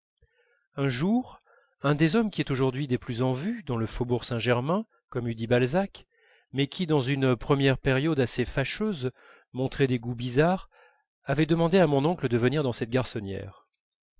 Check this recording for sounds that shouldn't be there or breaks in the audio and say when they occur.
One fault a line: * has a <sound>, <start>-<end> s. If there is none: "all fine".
all fine